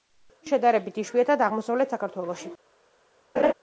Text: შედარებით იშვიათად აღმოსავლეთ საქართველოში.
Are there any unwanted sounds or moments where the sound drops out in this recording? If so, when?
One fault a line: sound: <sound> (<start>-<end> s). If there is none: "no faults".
sound: laugh (3.4-3.5 s)